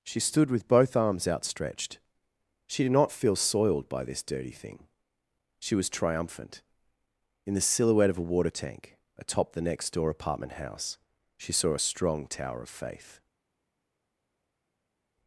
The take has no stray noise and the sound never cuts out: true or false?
true